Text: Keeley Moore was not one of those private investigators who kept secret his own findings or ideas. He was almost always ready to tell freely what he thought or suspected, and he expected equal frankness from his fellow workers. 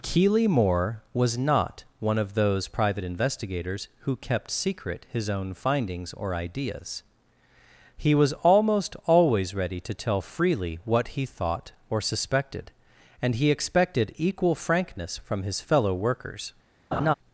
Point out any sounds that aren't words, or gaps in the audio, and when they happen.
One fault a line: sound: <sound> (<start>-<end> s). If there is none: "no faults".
sound: laugh (16.9-17.1 s)